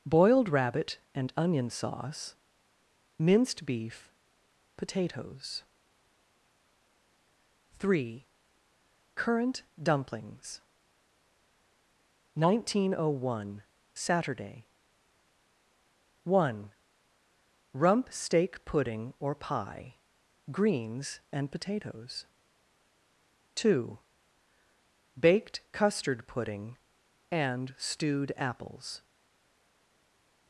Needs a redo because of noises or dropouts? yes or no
no